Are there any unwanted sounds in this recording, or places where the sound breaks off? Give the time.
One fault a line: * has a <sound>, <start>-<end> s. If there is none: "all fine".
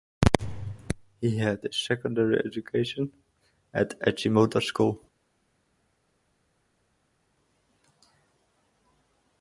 all fine